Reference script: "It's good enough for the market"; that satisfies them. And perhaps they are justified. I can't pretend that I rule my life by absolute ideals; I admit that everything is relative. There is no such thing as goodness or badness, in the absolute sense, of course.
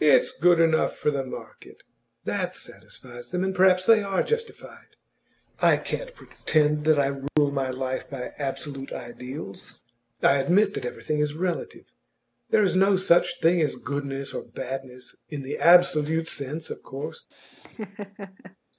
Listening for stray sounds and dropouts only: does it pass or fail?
fail